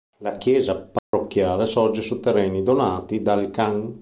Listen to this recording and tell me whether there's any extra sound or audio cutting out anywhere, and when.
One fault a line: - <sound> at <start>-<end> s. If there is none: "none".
- dropout at 1.0-1.1 s